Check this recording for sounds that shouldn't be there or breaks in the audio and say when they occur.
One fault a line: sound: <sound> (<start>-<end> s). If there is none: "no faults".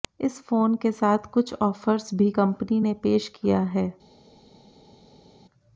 no faults